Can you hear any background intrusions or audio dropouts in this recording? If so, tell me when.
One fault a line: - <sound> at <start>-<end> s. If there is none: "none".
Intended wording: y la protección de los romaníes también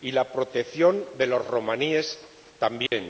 - dropout at 2.9-2.9 s